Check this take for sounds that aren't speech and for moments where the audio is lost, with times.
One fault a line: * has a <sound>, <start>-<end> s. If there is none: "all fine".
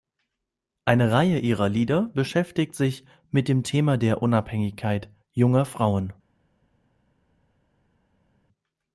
all fine